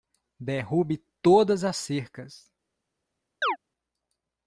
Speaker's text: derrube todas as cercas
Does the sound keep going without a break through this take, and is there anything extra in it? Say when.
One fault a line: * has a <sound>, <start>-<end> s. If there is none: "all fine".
* has a chirp, 3.4-3.6 s